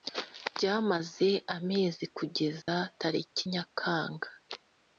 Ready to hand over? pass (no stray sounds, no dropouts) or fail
fail